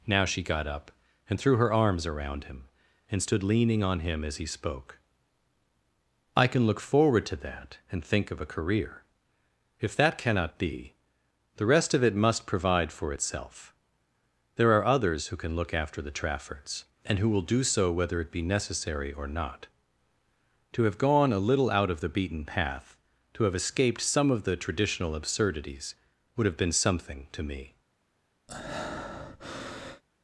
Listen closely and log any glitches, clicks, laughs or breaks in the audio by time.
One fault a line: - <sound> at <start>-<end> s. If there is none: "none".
- breath at 28.5-30.0 s